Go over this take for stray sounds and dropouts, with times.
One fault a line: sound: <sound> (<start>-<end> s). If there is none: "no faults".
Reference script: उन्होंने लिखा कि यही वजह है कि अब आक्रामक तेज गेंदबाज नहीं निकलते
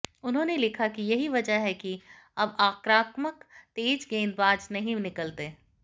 no faults